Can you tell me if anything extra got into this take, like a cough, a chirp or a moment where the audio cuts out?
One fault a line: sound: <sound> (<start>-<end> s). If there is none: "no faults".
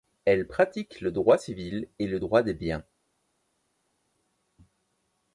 no faults